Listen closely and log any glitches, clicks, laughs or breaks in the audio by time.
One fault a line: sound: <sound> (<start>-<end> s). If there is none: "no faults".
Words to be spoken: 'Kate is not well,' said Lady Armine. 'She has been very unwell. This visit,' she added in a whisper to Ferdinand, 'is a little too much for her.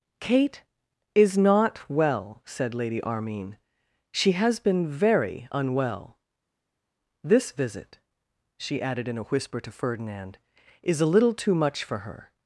no faults